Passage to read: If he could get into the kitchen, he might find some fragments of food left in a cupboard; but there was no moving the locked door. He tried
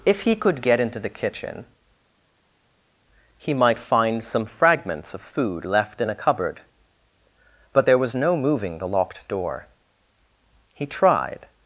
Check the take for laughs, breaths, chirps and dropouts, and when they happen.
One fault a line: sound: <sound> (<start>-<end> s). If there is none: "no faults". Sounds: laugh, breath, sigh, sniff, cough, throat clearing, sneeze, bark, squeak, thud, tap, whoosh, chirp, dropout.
no faults